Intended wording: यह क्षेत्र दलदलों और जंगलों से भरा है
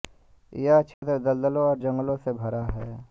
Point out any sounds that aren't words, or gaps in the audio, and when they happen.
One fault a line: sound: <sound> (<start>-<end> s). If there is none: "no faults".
sound: dropout (0.9-1.0 s)